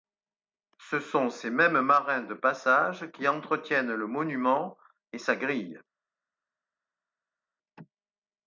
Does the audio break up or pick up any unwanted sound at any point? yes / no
no